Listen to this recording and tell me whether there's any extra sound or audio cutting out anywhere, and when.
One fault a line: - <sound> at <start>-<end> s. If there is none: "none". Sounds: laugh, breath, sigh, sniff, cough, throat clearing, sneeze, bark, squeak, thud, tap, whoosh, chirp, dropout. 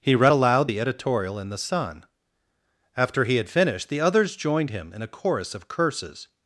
none